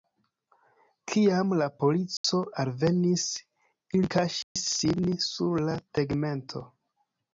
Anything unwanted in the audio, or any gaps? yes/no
yes